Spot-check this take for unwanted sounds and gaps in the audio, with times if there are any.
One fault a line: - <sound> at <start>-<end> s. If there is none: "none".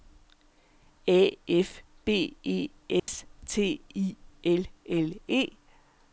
- dropout at 3.0-3.1 s